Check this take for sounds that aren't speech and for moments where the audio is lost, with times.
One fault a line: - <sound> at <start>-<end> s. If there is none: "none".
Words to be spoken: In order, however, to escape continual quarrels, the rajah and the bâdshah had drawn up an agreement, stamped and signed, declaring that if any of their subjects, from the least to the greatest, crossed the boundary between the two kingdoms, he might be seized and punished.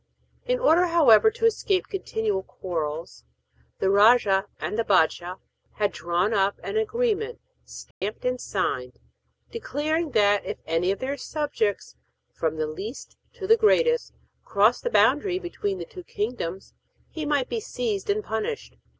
- dropout at 7.9-8.0 s